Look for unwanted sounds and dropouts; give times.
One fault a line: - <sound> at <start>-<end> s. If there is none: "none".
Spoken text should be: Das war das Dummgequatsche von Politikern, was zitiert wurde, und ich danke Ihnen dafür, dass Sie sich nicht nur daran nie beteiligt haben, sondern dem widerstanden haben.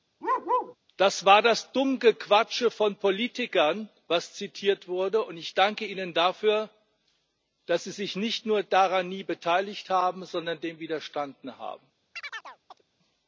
- bark at 0.2-0.8 s
- chirp at 12.1-12.8 s